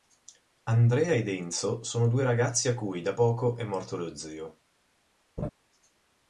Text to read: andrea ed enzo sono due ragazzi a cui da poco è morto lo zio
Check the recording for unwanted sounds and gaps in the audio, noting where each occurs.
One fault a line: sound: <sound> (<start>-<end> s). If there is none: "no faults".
sound: laugh (5.4-5.5 s)